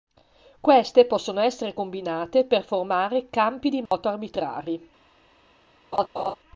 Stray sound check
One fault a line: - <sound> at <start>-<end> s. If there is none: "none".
- dropout at 3.9-3.9 s
- laugh at 5.9-6.4 s